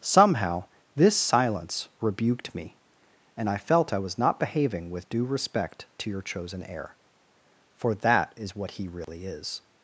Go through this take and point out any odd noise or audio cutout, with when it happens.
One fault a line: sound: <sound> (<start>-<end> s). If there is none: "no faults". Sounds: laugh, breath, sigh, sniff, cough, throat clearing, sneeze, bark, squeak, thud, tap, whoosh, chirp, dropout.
sound: dropout (9.0-9.1 s)